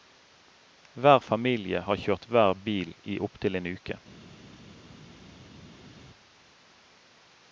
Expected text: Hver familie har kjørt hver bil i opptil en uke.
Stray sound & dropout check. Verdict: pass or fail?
pass